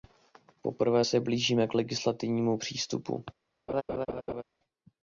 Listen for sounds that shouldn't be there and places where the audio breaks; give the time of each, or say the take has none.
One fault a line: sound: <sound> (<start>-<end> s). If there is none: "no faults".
sound: laugh (3.7-4.4 s)